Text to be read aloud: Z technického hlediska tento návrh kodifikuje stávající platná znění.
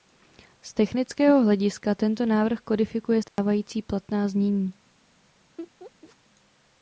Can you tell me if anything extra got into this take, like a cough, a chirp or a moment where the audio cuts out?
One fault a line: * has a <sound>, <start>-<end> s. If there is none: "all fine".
* has a dropout, 3.3-3.4 s
* has a laugh, 5.6-6.2 s